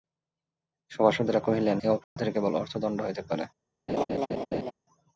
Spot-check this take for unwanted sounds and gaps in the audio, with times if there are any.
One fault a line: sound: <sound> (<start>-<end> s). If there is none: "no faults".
sound: dropout (2.0-2.2 s)
sound: laugh (3.9-4.7 s)